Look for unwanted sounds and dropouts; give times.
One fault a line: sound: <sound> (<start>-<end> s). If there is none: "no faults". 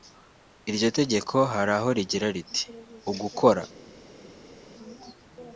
no faults